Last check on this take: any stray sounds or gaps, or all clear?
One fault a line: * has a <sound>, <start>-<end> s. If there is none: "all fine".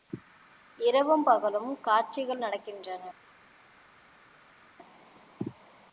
all fine